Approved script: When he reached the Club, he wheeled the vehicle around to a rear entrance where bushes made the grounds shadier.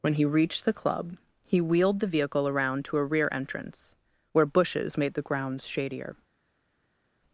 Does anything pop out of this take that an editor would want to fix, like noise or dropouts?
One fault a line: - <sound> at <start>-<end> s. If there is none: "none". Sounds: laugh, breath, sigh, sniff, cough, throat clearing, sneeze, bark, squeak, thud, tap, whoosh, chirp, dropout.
none